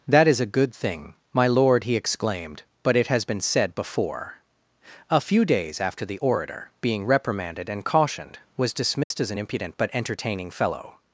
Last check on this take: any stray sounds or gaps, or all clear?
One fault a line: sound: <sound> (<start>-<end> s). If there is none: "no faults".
sound: dropout (9.0-9.1 s)